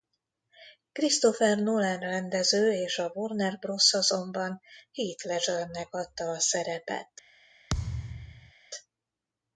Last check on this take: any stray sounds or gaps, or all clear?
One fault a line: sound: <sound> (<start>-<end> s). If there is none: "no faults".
sound: thud (7.7-8.5 s)